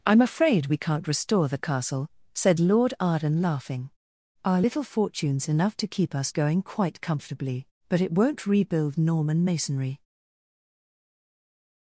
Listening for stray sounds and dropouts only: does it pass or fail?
pass